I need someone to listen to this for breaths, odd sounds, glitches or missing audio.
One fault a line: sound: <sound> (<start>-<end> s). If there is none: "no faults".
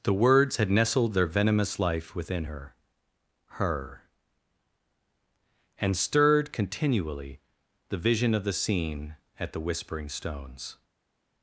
no faults